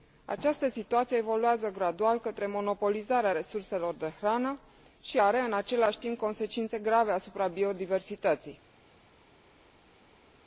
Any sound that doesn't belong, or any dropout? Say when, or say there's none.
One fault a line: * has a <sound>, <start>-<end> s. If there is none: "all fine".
all fine